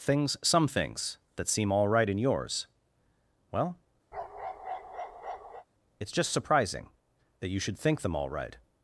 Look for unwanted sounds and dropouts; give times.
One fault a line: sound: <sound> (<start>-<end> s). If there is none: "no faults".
sound: bark (4.1-5.7 s)